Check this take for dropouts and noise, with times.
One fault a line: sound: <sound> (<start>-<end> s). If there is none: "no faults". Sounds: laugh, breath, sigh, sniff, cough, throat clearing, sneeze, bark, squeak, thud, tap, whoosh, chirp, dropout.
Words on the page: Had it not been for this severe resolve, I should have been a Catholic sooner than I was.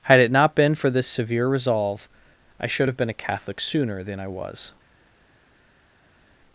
no faults